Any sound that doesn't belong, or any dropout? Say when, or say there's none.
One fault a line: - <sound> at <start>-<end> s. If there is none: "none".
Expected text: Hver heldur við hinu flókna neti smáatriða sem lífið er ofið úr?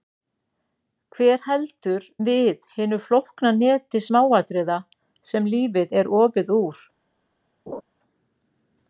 - laugh at 7.7-7.8 s